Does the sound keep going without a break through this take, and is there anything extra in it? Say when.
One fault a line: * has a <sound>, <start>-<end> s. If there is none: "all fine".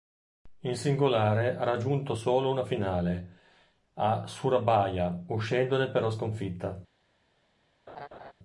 * has a laugh, 7.9-8.3 s